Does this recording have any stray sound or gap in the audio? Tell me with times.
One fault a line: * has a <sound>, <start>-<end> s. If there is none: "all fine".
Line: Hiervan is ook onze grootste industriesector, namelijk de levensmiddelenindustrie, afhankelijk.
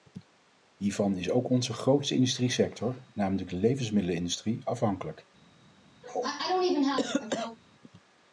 * has a cough, 6.0-7.6 s